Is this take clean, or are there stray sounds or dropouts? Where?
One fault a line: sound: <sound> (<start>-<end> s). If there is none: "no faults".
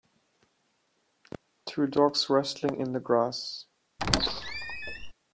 sound: squeak (4.0-5.1 s)